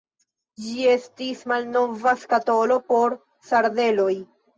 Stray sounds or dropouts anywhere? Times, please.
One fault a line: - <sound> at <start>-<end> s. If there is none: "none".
none